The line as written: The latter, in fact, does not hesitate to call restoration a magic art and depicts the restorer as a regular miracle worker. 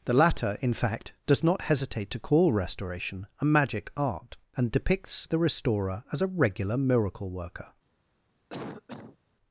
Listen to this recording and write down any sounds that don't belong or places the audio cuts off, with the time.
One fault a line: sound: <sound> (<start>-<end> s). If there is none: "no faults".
sound: cough (8.5-9.2 s)